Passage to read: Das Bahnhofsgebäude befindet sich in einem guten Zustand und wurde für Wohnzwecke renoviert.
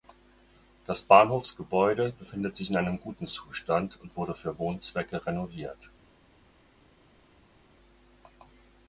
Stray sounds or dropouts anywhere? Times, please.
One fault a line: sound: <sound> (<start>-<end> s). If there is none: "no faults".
no faults